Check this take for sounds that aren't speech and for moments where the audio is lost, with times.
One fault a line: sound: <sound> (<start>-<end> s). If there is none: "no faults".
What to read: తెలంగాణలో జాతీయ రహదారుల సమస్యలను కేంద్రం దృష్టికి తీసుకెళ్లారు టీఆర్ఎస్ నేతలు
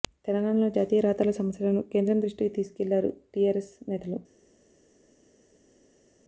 no faults